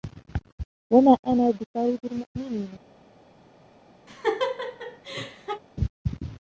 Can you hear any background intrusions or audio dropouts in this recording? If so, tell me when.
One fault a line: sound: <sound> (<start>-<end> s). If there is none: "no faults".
sound: laugh (4.1-5.6 s)